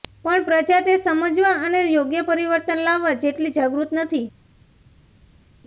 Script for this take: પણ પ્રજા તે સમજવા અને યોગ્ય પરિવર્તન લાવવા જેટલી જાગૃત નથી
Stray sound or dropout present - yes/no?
no